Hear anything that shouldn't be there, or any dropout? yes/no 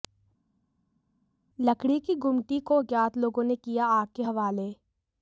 no